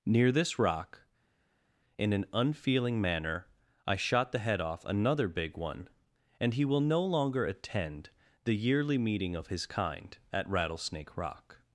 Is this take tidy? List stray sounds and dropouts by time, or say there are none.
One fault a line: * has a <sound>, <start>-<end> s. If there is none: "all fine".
all fine